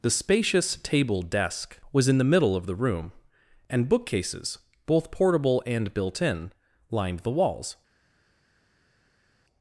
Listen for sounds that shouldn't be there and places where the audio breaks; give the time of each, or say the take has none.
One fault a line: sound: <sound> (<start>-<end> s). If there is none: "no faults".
no faults